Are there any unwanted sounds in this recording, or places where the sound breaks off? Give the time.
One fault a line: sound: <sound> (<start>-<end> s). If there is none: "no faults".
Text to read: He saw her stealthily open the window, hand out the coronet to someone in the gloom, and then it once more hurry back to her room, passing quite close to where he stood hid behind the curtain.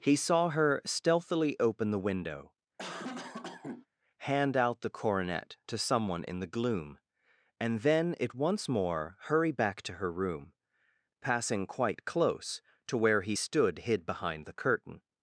sound: cough (2.8-3.9 s)